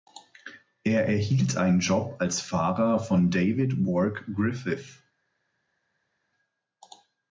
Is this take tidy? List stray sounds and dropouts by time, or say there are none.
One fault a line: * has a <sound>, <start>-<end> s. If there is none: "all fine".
all fine